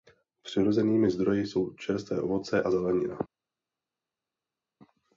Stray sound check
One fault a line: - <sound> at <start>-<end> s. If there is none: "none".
none